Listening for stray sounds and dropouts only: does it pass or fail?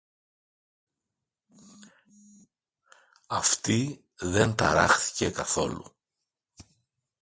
pass